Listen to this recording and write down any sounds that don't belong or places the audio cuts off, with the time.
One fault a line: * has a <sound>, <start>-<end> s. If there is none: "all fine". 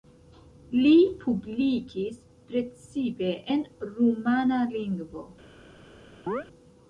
* has a chirp, 6.3-6.4 s